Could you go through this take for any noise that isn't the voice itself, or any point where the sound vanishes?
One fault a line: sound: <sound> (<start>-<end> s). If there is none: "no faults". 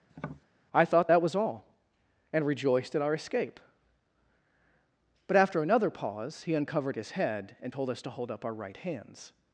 sound: tap (0.1-0.4 s)